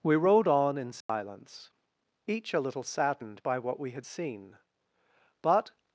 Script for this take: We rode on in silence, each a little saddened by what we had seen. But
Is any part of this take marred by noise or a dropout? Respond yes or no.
yes